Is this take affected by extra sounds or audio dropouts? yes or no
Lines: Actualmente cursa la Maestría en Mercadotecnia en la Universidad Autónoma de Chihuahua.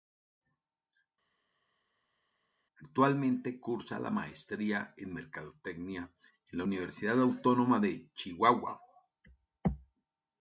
no